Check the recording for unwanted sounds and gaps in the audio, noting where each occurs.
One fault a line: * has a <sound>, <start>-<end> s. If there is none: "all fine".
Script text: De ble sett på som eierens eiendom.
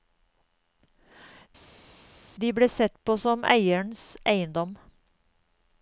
all fine